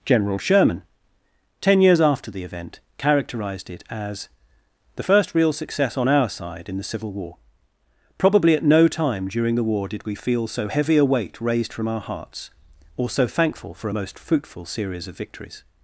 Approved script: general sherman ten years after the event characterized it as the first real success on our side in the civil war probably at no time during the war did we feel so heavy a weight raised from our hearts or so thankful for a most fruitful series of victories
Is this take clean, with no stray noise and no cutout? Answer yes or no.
yes